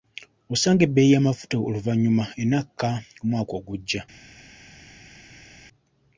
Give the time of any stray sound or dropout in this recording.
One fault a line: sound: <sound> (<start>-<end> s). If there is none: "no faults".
no faults